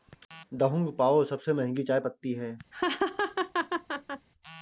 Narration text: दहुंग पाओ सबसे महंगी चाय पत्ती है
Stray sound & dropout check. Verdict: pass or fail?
fail